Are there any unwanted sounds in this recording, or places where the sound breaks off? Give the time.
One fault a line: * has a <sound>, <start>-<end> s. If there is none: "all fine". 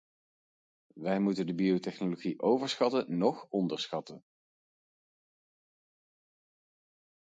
all fine